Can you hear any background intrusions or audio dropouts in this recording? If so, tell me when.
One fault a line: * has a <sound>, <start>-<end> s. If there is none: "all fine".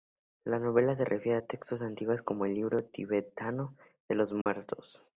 * has a dropout, 4.4-4.5 s